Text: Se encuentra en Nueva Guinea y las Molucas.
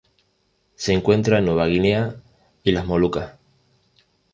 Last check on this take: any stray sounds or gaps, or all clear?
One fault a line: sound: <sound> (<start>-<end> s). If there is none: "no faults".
no faults